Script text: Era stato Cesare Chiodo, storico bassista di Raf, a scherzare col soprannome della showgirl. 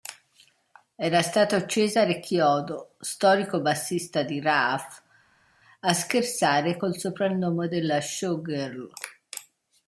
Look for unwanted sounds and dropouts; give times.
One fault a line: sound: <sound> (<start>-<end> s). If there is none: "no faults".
no faults